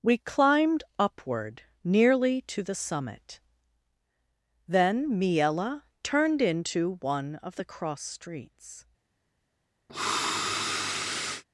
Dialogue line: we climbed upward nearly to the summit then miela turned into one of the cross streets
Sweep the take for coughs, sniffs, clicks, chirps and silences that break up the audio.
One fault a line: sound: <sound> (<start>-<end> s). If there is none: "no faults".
sound: sniff (9.9-11.4 s)